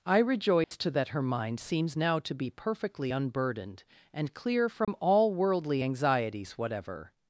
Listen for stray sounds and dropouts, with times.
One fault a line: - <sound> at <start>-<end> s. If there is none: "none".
- dropout at 0.6-0.7 s
- dropout at 4.8-4.9 s